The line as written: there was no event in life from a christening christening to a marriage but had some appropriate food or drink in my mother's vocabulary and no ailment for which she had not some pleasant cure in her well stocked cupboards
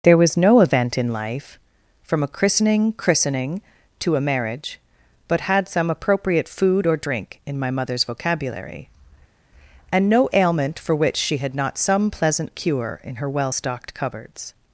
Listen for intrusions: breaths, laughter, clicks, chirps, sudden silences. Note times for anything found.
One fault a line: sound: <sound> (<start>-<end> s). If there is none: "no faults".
no faults